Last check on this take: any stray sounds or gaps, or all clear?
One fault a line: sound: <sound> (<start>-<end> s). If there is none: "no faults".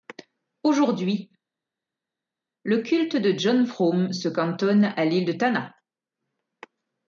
no faults